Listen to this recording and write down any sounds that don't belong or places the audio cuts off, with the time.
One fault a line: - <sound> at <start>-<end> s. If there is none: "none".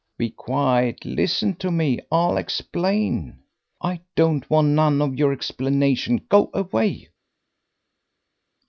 none